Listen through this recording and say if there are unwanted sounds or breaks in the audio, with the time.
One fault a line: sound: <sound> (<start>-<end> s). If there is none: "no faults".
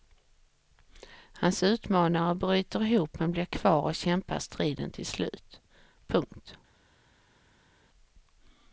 no faults